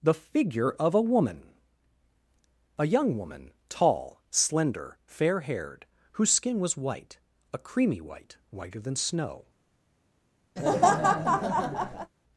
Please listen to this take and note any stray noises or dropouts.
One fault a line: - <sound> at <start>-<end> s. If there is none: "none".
- laugh at 10.6-12.1 s